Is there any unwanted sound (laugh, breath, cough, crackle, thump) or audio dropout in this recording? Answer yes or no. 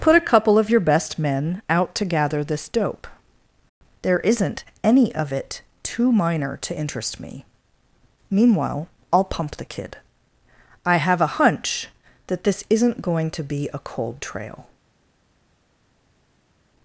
no